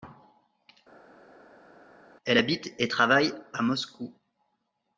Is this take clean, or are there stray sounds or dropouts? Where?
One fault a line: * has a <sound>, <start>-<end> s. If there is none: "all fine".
all fine